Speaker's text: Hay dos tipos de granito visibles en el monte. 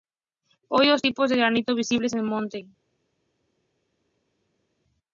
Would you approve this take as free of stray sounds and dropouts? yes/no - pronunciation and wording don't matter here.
yes